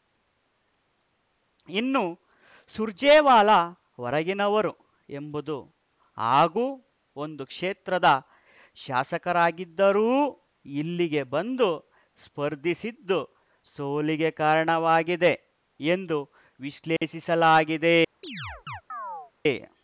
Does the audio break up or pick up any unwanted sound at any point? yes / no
yes